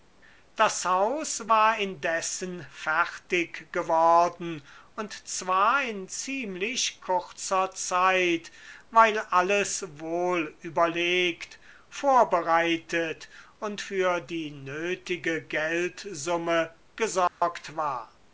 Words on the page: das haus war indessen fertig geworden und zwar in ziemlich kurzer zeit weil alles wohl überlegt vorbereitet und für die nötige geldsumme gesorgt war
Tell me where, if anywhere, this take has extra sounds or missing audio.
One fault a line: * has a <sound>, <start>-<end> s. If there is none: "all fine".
* has a dropout, 17.3-17.4 s